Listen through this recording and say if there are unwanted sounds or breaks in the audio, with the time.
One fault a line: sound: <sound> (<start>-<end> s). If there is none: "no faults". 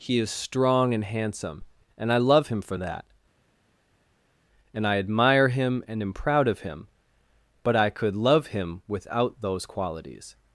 no faults